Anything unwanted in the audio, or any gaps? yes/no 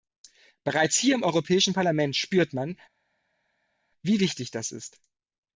no